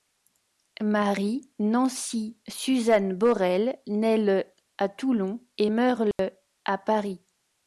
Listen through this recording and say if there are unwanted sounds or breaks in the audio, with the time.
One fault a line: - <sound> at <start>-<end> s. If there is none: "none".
- dropout at 6.1-6.2 s